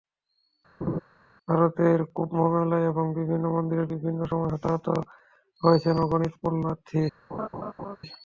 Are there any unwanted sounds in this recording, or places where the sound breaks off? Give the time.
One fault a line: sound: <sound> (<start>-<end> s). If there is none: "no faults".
sound: laugh (0.8-1.0 s)
sound: laugh (7.3-8.0 s)